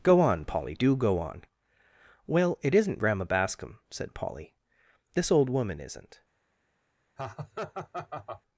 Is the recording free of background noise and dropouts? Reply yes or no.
no